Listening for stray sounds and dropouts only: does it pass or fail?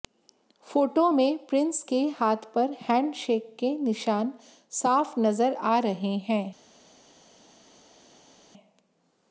pass